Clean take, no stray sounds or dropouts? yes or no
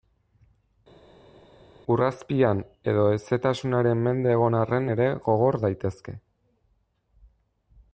yes